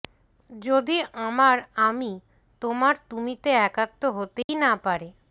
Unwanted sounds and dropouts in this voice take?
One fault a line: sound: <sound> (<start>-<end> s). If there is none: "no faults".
sound: dropout (4.4-4.5 s)